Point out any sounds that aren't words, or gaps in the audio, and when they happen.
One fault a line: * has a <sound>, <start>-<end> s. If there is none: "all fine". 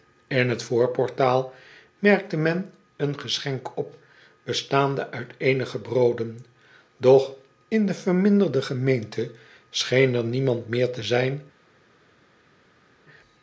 all fine